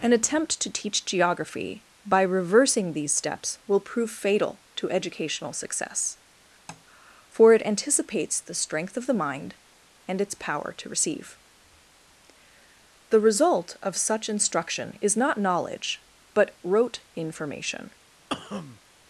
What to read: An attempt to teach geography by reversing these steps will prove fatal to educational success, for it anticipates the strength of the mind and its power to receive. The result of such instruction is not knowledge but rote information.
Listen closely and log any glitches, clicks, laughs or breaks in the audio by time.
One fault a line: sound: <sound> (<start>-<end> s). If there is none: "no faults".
sound: tap (6.7-6.8 s)
sound: cough (18.3-18.8 s)